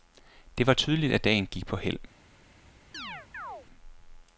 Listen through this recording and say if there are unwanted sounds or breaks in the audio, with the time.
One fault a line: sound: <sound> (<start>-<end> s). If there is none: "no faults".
sound: chirp (2.9-3.7 s)